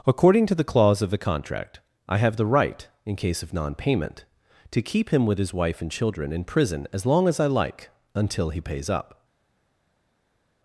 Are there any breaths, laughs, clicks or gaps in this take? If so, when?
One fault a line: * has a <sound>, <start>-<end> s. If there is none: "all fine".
all fine